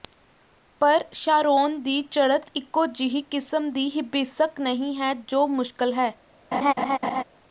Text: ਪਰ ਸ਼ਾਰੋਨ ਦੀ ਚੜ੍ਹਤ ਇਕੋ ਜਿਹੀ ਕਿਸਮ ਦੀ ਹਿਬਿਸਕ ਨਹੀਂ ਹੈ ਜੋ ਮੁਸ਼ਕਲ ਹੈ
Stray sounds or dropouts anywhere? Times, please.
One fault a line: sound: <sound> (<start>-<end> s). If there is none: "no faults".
sound: laugh (6.5-7.2 s)